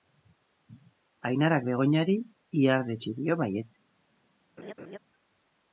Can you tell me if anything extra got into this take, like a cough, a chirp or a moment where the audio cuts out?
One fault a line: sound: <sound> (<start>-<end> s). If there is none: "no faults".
sound: laugh (4.6-5.0 s)